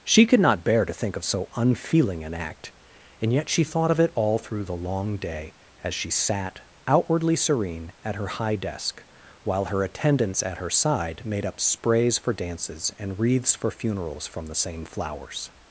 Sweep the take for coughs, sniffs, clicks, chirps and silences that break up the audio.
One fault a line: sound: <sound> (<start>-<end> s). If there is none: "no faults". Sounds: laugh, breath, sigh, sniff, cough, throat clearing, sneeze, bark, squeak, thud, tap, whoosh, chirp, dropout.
no faults